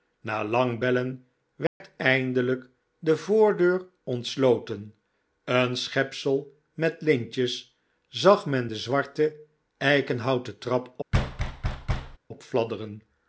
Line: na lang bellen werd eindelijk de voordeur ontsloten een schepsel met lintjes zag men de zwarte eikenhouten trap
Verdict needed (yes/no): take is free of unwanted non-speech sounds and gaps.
no